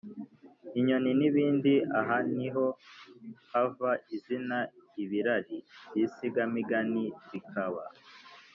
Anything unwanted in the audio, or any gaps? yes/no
no